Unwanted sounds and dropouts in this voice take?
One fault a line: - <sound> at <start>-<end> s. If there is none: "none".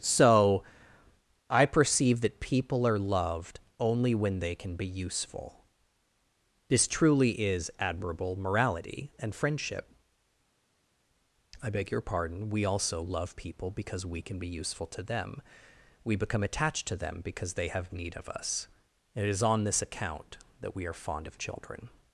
none